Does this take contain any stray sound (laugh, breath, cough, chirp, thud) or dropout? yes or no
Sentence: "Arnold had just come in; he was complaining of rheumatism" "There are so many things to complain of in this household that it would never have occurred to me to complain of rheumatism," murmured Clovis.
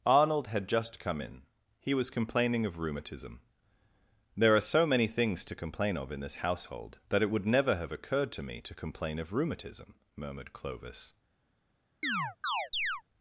yes